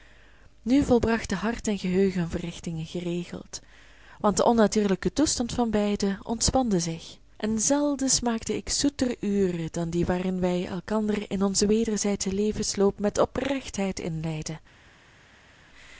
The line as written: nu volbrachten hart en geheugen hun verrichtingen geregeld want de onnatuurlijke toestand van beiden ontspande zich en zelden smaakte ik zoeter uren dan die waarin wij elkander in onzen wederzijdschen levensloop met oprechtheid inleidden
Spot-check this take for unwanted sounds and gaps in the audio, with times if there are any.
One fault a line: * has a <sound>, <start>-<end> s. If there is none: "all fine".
all fine